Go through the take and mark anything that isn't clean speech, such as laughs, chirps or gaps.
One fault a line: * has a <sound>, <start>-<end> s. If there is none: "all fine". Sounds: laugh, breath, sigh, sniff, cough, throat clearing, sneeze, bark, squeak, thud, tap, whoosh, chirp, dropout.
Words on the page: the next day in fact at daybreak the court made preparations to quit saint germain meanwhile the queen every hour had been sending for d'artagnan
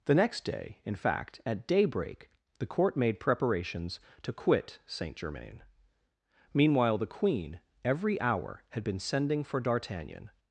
all fine